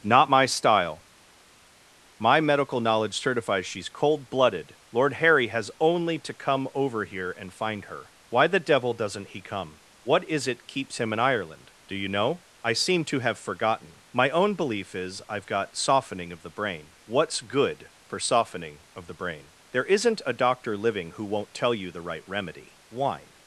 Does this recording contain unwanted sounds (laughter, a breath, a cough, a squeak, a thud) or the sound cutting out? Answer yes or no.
no